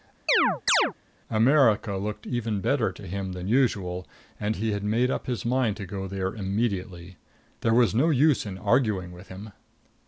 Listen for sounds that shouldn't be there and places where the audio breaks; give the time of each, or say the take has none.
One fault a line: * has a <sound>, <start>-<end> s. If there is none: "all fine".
* has a chirp, 0.3-0.9 s